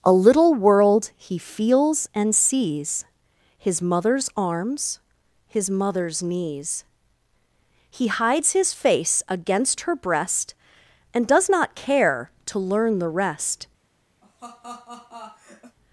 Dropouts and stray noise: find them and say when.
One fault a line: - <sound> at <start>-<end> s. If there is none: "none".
- laugh at 14.2-15.8 s